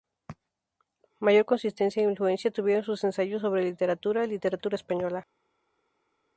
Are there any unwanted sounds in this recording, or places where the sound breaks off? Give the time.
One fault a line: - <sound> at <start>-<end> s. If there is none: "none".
none